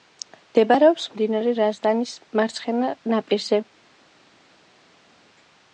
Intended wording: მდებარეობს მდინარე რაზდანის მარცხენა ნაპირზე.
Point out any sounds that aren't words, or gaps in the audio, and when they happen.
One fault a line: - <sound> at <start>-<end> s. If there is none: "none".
none